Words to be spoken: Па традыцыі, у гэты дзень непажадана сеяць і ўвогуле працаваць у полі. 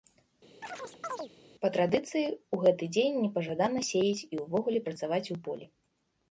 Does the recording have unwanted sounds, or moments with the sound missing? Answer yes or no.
yes